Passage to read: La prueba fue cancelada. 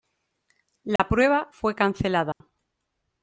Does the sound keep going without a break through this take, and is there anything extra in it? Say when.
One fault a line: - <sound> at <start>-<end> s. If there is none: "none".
- dropout at 1.0-1.0 s
- dropout at 2.3-2.4 s